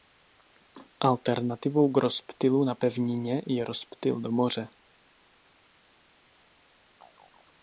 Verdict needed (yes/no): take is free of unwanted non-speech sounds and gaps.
yes